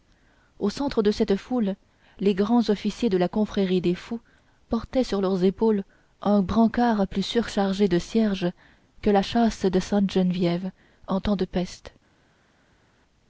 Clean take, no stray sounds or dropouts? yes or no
yes